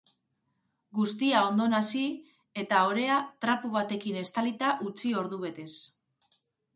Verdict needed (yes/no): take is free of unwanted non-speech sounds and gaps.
yes